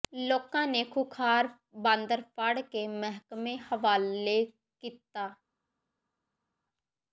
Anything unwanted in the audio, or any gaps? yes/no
no